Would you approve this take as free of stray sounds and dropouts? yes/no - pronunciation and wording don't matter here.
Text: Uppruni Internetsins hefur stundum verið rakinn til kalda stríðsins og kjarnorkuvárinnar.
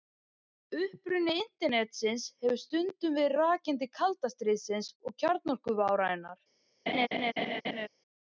no